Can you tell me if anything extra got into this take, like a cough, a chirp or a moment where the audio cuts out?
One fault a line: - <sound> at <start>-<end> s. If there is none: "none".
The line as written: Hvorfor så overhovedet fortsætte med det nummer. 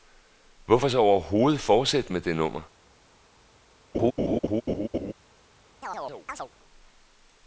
- laugh at 3.9-5.1 s
- chirp at 5.8-6.5 s